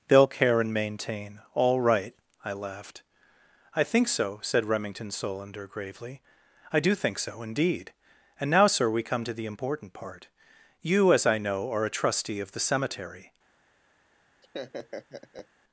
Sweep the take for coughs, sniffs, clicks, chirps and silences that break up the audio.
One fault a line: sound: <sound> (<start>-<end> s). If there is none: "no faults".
sound: laugh (14.4-15.5 s)